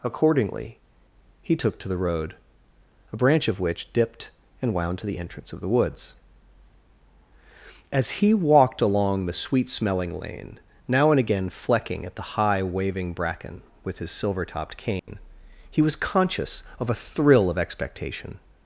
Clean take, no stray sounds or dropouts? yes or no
no